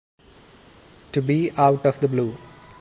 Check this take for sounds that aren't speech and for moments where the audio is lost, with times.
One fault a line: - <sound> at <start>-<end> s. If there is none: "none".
none